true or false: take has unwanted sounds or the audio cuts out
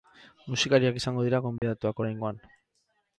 true